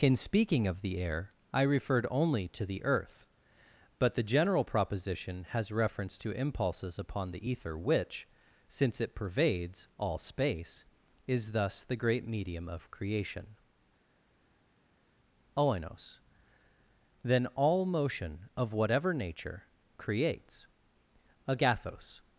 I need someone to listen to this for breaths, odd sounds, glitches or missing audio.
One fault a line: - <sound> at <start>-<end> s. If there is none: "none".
none